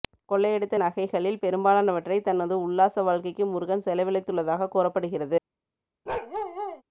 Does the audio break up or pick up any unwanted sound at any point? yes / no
yes